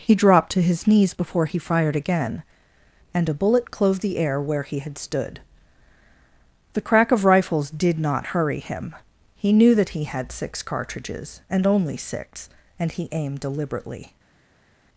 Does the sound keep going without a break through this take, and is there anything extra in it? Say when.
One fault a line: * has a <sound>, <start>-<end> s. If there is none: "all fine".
all fine